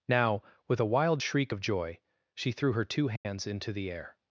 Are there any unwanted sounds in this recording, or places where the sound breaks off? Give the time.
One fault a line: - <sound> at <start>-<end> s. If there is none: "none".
- dropout at 3.2-3.3 s